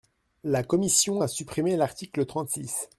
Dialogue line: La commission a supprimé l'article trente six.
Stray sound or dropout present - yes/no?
no